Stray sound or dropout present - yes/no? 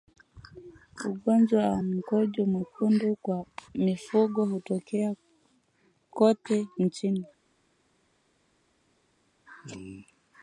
no